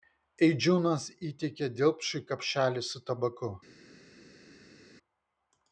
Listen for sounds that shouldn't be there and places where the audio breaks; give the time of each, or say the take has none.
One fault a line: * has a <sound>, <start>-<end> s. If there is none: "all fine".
all fine